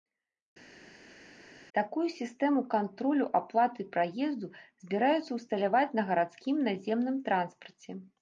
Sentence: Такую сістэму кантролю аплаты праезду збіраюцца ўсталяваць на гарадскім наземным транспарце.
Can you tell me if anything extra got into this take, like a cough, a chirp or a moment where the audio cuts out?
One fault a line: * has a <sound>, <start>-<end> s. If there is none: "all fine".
all fine